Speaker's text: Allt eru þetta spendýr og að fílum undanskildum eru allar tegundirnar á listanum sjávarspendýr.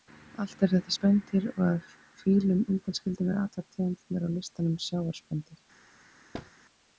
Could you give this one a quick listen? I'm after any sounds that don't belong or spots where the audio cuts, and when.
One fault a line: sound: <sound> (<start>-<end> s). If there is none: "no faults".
sound: thud (6.3-6.5 s)